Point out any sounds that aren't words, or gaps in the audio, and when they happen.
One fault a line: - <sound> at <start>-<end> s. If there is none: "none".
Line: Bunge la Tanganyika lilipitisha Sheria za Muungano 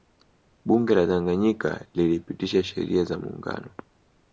none